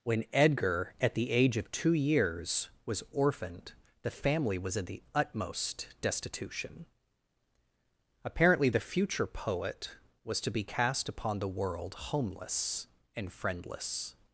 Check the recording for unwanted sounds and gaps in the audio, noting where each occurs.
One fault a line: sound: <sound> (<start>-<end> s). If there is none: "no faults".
no faults